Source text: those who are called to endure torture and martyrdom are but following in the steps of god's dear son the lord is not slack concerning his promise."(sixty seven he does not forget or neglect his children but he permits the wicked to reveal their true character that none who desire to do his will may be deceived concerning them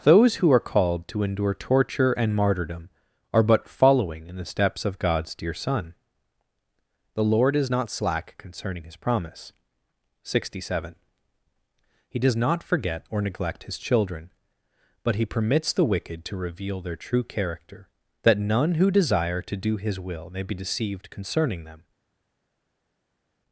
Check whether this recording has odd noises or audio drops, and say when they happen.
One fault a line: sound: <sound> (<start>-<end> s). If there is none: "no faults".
no faults